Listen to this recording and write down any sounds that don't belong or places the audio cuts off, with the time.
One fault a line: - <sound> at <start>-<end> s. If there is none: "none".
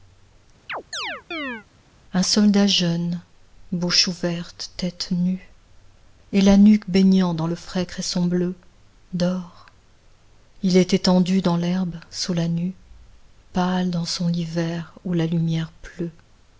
- chirp at 0.7-1.7 s